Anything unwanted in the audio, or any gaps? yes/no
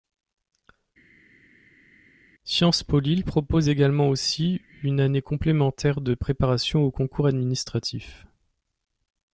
no